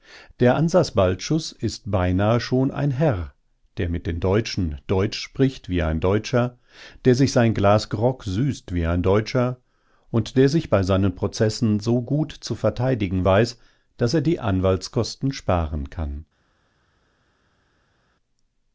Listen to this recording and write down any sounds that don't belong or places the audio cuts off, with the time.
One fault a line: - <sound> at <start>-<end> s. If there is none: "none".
none